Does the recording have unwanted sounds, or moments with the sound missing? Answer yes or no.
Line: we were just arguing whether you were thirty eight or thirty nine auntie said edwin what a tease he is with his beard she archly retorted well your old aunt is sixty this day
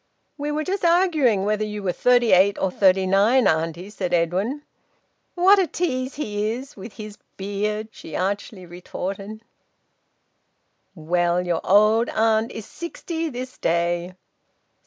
no